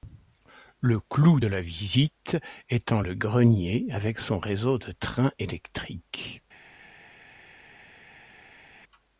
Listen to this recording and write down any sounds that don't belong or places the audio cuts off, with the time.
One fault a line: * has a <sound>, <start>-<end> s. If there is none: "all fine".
all fine